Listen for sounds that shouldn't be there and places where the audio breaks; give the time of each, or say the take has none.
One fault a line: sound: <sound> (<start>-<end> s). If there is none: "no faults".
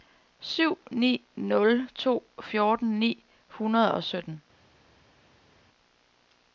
no faults